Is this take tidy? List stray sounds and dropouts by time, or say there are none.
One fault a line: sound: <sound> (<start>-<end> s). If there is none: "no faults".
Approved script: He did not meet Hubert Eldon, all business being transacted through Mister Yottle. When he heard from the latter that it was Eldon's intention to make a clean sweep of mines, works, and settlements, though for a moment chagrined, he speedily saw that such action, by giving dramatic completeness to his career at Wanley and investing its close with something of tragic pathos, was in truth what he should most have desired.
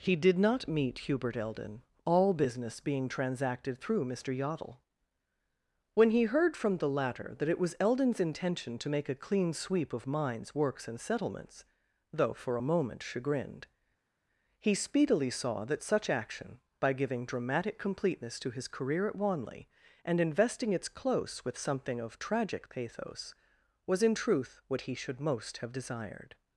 no faults